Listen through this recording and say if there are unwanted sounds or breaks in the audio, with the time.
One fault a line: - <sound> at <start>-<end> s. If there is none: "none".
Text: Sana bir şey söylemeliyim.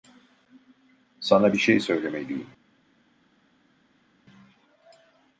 none